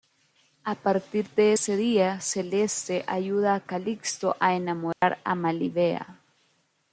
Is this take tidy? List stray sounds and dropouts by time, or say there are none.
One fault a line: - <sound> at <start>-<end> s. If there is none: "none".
- dropout at 4.9-5.0 s